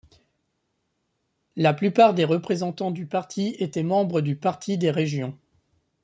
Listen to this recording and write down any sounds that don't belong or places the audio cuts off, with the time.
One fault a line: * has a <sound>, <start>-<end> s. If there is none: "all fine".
all fine